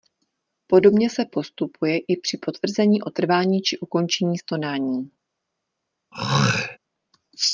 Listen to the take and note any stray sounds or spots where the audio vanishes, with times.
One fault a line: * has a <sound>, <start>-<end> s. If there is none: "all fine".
* has a throat clearing, 6.1-6.8 s